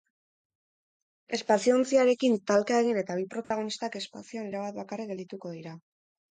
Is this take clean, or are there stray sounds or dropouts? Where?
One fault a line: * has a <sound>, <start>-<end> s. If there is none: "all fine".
* has a dropout, 3.4-3.5 s